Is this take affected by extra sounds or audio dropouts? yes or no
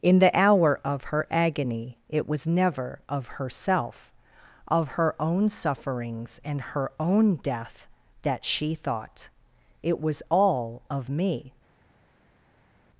no